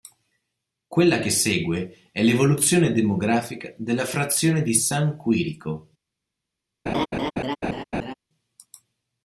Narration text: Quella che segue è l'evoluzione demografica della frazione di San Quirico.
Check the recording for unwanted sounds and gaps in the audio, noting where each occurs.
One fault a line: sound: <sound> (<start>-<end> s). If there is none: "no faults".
sound: laugh (6.9-8.1 s)